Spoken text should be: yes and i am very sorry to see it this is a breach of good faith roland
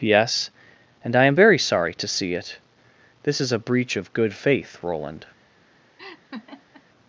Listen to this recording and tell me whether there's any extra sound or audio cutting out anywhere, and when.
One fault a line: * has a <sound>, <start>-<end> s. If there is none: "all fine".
* has a laugh, 6.0-6.8 s